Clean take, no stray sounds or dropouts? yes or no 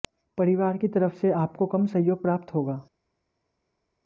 yes